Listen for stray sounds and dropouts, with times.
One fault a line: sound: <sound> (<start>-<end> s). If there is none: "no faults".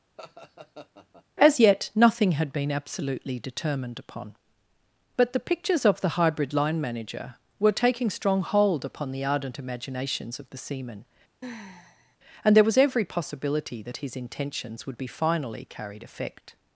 sound: laugh (0.2-1.2 s)
sound: sigh (11.4-12.2 s)